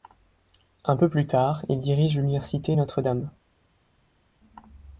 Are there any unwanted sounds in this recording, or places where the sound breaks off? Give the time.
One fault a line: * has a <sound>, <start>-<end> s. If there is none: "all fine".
all fine